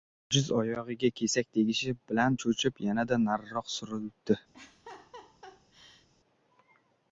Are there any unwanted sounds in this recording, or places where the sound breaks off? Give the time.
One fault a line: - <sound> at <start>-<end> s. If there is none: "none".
- laugh at 4.5-6.1 s